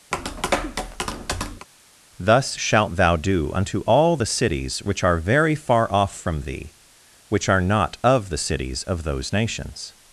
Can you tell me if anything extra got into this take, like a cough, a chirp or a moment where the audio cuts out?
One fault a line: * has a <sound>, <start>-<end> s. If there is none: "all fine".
* has a tap, 0.1-1.7 s